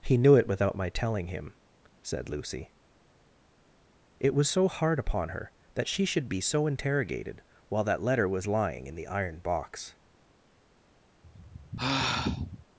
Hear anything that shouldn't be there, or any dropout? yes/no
yes